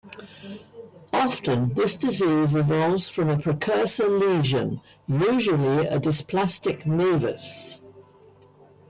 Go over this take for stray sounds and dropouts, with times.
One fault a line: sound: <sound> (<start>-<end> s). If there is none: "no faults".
no faults